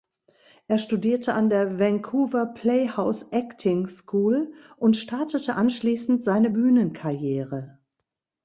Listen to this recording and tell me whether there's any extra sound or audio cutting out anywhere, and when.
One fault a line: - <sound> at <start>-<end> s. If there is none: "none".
none